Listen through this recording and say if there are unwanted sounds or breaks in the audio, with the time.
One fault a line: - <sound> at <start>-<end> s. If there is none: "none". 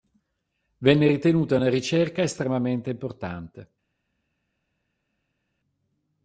none